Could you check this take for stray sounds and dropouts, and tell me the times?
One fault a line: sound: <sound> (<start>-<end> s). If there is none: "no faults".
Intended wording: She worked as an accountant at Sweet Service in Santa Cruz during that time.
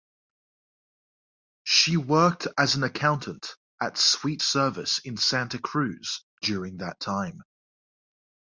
no faults